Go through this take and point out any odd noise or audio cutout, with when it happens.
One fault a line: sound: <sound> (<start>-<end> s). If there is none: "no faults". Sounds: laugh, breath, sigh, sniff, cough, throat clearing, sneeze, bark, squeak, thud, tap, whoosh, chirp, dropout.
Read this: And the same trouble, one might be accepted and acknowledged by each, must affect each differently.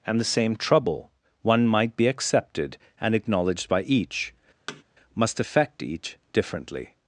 sound: thud (4.7-4.8 s)